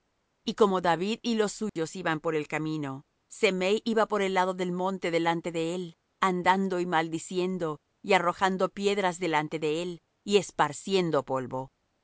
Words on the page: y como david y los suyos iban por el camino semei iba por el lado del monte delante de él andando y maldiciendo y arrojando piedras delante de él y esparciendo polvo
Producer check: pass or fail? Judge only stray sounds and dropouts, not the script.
fail